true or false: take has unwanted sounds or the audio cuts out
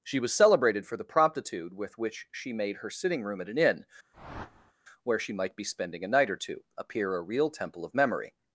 true